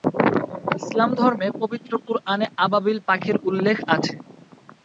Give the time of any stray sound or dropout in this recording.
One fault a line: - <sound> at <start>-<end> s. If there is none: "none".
none